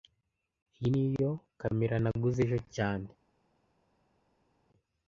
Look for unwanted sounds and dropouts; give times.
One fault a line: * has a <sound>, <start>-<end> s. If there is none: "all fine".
all fine